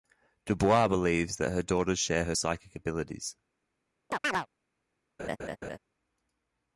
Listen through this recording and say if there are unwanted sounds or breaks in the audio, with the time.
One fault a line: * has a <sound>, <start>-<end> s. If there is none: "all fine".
* has a chirp, 4.1-4.5 s
* has a laugh, 5.2-5.8 s